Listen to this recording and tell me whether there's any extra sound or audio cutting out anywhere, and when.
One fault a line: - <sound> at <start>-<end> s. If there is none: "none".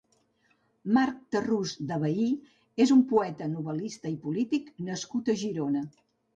none